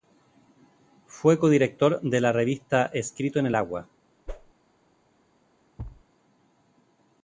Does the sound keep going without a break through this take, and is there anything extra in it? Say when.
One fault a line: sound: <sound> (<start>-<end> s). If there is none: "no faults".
sound: whoosh (4.3-4.5 s)
sound: thud (5.8-6.0 s)